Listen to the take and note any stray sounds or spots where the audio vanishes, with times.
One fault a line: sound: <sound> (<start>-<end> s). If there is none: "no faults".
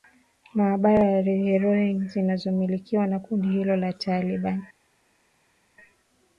no faults